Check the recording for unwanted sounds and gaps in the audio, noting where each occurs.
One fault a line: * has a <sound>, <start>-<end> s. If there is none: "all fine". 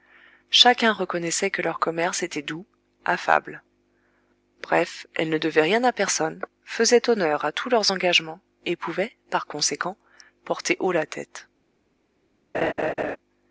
* has a laugh, 12.5-13.2 s